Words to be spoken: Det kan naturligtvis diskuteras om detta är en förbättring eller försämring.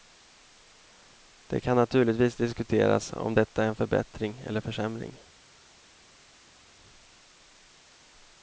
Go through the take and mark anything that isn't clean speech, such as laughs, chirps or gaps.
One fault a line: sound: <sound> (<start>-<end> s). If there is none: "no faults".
no faults